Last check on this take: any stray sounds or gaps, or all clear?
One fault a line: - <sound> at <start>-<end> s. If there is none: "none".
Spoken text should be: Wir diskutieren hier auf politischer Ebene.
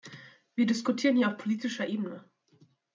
none